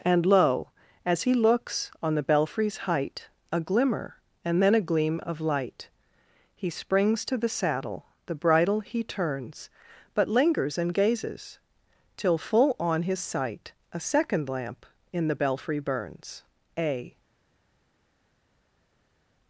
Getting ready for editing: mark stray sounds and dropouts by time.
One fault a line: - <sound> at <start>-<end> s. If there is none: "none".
none